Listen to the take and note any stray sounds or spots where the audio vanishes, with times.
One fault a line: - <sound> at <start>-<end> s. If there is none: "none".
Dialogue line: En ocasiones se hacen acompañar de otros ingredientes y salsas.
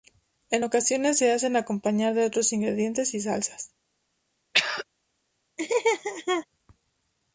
- throat clearing at 4.5-4.8 s
- laugh at 5.6-6.5 s